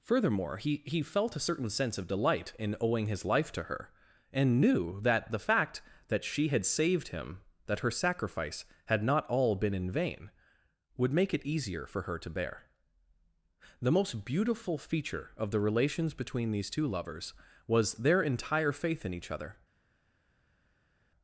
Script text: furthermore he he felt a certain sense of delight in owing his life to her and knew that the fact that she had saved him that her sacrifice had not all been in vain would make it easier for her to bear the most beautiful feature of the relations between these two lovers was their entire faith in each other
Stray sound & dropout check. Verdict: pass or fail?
pass